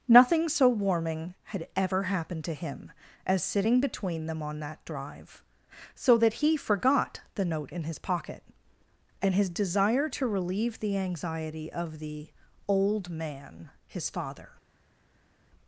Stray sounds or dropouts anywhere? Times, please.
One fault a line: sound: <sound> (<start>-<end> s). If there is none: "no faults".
no faults